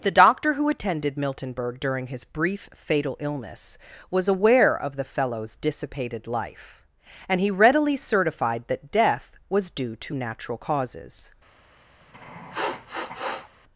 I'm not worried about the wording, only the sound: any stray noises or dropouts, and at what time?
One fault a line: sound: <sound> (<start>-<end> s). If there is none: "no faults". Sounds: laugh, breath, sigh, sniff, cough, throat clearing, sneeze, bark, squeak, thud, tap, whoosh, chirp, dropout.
sound: sniff (12.0-13.5 s)